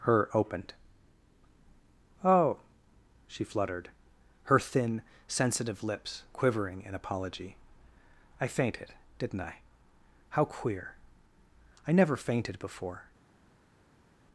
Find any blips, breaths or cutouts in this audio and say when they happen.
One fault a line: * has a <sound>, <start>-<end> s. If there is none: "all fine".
all fine